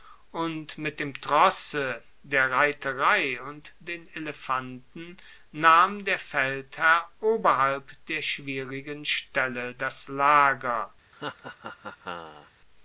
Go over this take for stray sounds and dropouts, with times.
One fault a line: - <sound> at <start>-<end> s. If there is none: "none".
- laugh at 11.1-12.5 s